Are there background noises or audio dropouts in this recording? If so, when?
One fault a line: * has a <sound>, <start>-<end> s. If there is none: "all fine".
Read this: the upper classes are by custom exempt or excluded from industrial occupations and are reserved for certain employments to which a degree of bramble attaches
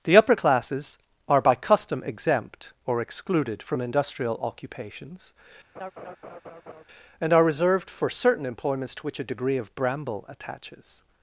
* has a laugh, 5.8-6.8 s